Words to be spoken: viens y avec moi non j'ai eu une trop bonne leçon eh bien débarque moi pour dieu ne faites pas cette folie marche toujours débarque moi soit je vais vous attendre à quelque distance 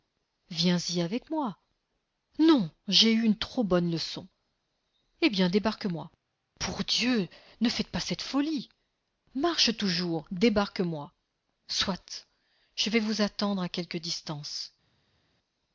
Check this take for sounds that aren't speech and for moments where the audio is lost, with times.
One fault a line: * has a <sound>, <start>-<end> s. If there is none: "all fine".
all fine